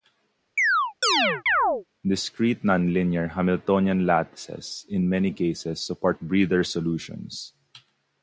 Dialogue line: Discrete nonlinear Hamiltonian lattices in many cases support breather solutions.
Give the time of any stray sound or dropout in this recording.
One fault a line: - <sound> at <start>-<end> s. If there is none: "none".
- chirp at 0.6-1.8 s